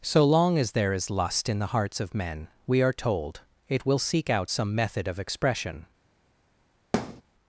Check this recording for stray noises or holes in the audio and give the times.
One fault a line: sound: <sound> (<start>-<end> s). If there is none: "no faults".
sound: thud (6.9-7.2 s)